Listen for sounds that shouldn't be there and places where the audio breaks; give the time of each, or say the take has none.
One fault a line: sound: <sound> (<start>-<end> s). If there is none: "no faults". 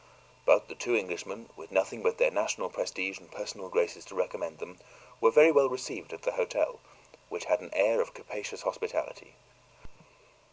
no faults